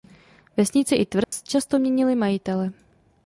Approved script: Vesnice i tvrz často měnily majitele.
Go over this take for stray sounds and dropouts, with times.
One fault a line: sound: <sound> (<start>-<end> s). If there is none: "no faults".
sound: dropout (1.2-1.3 s)